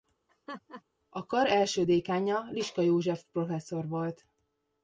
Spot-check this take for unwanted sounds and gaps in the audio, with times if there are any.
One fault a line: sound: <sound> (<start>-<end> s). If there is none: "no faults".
sound: laugh (0.3-0.8 s)